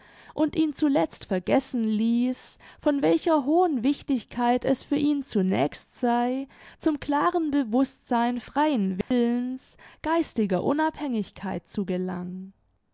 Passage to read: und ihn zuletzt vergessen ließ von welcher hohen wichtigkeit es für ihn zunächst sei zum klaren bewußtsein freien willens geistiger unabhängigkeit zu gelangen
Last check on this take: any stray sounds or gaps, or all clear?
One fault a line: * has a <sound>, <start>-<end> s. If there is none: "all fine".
* has a dropout, 9.0-9.1 s